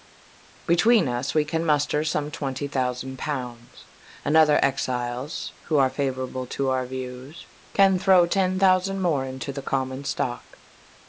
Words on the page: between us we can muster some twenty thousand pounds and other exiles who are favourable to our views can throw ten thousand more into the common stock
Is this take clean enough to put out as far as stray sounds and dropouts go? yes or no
yes